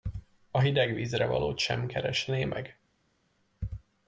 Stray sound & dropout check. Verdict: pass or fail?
pass